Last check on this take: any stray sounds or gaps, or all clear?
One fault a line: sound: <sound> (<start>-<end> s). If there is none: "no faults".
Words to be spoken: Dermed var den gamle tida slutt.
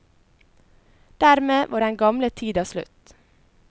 no faults